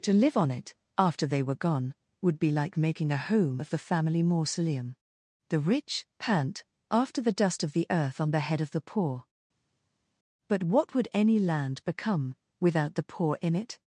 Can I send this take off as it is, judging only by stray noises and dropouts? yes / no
yes